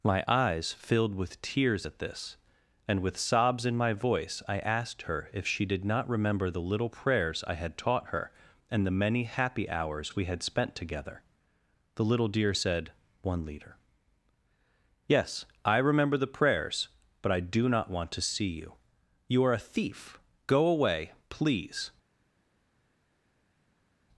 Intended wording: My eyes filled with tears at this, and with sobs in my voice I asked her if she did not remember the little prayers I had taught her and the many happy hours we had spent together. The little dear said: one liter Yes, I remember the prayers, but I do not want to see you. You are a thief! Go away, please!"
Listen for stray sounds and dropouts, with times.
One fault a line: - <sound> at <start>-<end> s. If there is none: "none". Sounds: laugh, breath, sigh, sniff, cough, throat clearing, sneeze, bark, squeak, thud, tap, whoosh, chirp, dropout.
none